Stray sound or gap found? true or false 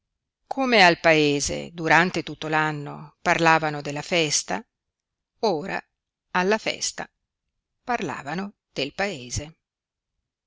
false